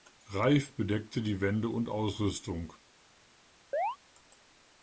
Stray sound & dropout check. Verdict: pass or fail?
fail